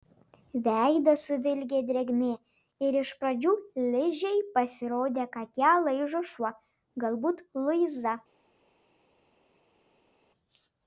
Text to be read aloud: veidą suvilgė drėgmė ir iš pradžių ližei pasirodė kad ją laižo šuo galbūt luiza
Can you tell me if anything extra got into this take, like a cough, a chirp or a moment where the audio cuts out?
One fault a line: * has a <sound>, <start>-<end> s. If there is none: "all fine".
all fine